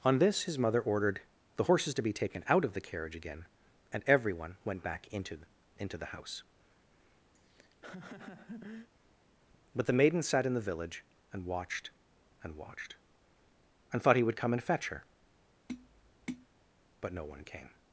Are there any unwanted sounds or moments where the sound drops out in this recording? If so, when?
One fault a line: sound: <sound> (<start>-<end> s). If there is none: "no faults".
sound: laugh (7.3-8.9 s)
sound: tap (15.7-16.5 s)